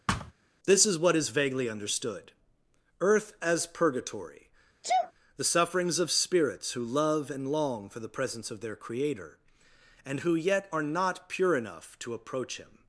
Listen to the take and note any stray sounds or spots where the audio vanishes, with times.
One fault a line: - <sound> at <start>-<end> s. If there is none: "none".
- thud at 0.1-0.3 s
- sneeze at 4.8-5.1 s